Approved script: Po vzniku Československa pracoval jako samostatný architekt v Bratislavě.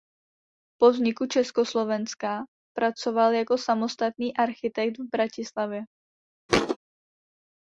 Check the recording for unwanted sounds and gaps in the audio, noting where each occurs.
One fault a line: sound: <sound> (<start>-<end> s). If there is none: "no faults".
sound: thud (6.5-6.8 s)